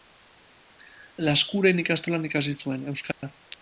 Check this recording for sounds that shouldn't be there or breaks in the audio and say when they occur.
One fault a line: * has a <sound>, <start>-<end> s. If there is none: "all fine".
* has a dropout, 3.1-3.2 s